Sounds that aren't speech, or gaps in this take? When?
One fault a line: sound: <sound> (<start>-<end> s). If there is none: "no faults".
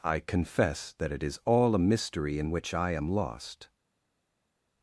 no faults